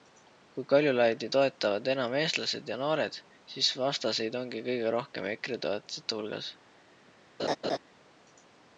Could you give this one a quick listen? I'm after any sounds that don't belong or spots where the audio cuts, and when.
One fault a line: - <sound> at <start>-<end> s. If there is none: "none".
- laugh at 7.4-7.8 s